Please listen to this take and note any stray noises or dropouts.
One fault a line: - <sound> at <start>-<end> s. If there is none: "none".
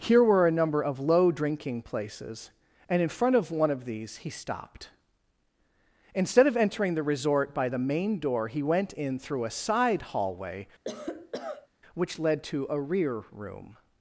- cough at 10.8-11.7 s